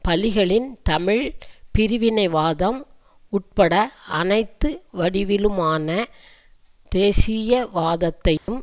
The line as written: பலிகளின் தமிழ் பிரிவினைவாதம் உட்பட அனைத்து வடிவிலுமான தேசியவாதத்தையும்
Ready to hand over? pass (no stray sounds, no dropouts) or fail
fail